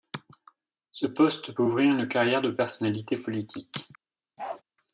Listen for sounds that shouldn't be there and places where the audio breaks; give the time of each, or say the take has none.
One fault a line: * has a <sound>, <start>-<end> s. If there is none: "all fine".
* has a bark, 4.4-4.6 s